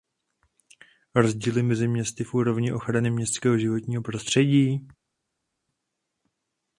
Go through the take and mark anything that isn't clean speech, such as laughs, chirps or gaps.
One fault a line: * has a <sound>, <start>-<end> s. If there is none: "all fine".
all fine